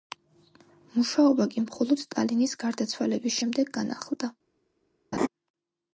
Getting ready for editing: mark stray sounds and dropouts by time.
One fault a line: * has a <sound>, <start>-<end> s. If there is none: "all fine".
* has a laugh, 5.1-5.3 s